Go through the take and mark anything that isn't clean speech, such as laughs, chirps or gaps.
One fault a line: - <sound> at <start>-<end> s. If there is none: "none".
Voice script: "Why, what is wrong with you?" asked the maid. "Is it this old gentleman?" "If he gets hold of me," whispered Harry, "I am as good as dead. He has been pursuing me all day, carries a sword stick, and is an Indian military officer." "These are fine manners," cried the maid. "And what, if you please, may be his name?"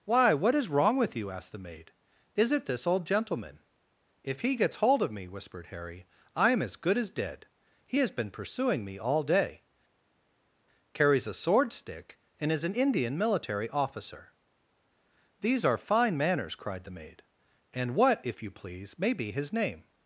none